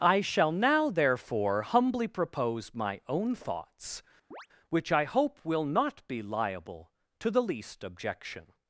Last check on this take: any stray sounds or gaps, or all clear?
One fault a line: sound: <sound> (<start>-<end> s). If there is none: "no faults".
sound: chirp (4.3-4.5 s)